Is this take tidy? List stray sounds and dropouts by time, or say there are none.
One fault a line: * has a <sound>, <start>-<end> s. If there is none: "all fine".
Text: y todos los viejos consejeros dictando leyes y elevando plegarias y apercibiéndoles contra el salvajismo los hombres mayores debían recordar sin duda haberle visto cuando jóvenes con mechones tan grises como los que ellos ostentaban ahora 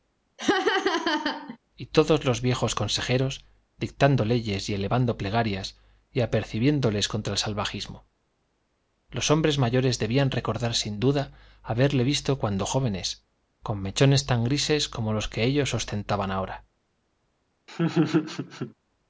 * has a laugh, 0.4-1.6 s
* has a laugh, 17.7-18.7 s